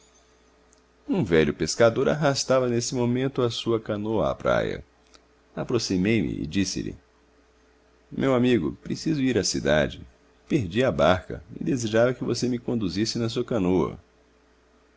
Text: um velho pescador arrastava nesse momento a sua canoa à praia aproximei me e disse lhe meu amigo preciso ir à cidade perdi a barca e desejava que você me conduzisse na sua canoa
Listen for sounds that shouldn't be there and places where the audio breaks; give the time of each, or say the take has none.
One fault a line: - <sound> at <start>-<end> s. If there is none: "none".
none